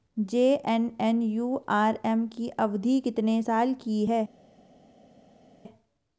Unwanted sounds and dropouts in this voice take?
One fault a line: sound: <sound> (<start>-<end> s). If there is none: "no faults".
no faults